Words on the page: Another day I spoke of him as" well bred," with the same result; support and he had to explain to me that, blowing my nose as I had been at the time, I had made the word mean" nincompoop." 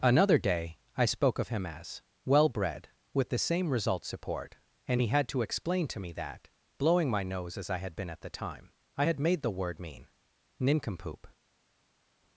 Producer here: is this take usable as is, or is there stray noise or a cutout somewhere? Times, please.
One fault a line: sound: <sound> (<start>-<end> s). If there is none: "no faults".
no faults